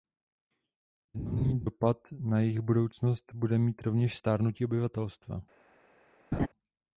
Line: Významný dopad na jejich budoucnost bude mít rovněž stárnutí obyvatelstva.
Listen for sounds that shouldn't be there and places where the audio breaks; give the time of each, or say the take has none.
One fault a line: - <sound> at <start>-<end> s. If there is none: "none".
- laugh at 6.3-6.5 s